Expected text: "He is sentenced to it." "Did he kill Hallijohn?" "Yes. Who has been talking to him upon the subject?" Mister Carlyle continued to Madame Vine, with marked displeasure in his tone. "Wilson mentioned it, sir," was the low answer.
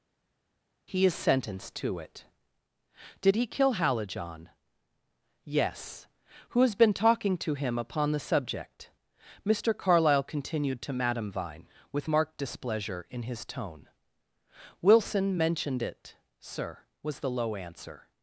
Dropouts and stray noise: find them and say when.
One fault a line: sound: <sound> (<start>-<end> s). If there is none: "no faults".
no faults